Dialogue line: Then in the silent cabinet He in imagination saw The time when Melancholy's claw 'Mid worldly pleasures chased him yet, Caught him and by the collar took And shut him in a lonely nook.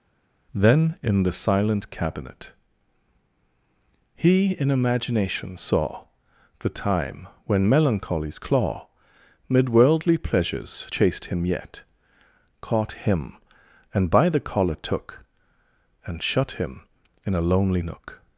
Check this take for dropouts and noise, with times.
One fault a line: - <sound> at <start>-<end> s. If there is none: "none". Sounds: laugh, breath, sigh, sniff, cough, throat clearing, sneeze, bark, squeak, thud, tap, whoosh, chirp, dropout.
none